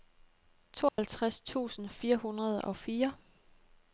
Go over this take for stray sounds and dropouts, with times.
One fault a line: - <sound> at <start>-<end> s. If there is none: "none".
- dropout at 0.9-1.0 s